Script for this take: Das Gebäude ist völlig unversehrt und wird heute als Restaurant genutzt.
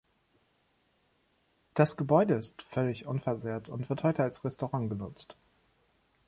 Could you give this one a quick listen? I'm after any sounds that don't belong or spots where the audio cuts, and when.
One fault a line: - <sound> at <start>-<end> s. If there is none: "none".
none